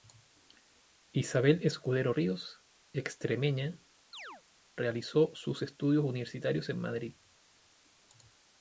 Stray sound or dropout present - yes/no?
yes